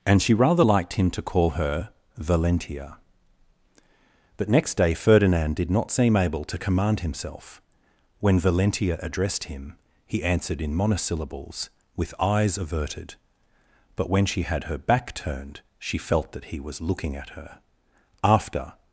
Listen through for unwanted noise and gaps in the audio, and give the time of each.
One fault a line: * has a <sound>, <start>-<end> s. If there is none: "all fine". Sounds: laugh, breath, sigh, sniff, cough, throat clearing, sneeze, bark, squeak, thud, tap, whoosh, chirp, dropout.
all fine